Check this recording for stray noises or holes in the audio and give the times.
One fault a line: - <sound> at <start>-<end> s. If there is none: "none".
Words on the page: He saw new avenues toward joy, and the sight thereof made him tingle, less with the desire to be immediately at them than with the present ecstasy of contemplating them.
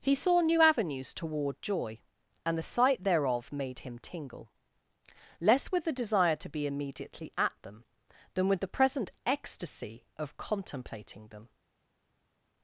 none